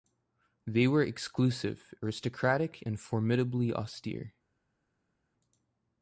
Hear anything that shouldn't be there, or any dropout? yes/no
no